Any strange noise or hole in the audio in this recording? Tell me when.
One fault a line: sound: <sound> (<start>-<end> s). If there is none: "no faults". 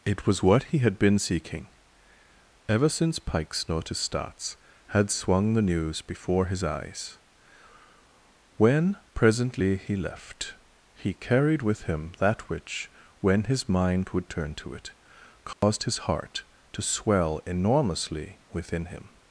sound: dropout (15.5-15.6 s)